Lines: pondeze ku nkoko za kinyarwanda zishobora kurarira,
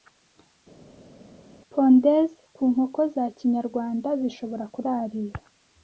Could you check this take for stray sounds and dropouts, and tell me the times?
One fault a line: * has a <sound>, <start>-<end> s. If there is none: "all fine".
all fine